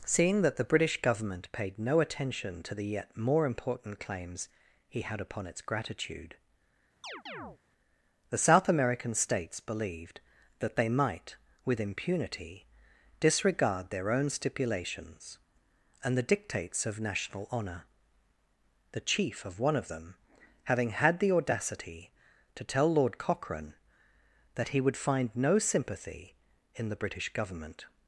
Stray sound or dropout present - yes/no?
yes